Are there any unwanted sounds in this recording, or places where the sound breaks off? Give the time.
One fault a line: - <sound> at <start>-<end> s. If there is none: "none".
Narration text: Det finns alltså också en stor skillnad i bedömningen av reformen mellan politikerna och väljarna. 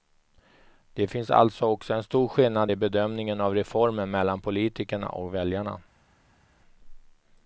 none